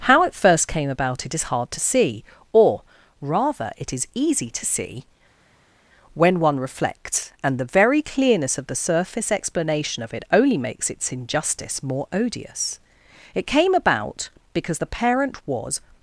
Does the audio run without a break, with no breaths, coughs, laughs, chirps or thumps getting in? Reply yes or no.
yes